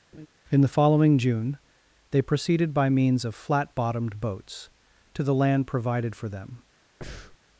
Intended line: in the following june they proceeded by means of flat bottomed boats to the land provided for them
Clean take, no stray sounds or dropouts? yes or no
no